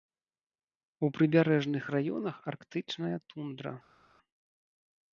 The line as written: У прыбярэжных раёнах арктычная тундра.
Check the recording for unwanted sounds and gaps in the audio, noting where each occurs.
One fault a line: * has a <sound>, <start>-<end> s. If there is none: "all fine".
all fine